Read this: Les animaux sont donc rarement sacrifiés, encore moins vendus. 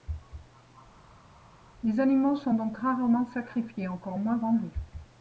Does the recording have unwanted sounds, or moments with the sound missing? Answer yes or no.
no